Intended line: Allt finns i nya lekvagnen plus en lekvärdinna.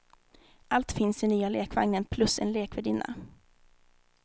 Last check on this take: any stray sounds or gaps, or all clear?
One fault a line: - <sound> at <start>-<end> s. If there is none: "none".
none